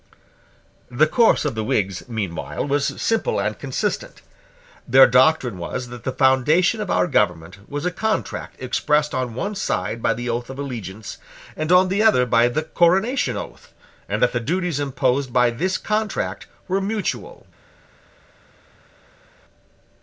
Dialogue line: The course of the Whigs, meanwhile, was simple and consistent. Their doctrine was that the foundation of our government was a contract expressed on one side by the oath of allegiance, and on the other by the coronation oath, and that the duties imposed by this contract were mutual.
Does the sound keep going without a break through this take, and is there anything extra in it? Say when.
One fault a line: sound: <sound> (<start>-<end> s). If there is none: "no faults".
no faults